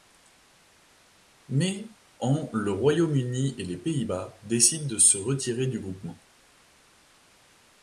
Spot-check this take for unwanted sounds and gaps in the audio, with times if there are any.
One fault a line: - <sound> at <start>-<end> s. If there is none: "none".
none